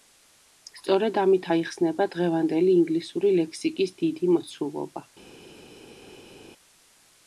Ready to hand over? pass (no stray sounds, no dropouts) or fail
pass